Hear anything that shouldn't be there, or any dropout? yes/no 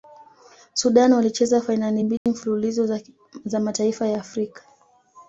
yes